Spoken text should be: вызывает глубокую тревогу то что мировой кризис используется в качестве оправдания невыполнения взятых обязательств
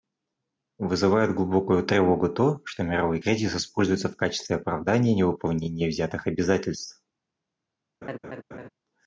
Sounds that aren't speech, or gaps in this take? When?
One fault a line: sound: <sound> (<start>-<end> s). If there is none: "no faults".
sound: laugh (8.0-8.7 s)